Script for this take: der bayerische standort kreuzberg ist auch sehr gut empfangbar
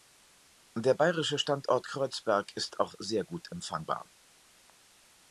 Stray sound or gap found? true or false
false